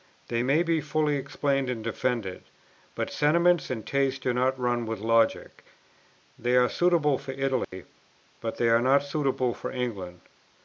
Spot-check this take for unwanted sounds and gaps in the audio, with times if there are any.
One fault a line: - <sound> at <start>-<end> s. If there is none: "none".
- dropout at 7.6-7.7 s